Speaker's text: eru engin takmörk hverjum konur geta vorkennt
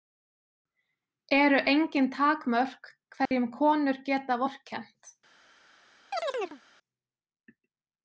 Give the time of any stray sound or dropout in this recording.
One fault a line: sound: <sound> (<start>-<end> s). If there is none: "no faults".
sound: dropout (3.3-3.3 s)
sound: chirp (6.1-6.6 s)